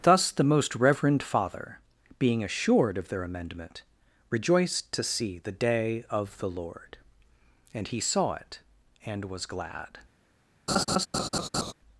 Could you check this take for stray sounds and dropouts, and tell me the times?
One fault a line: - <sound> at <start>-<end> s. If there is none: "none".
- laugh at 10.7-11.7 s